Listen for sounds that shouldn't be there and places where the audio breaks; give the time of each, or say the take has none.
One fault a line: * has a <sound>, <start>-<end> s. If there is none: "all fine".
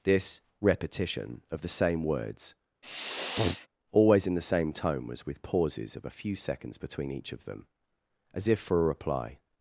* has a sniff, 2.8-3.7 s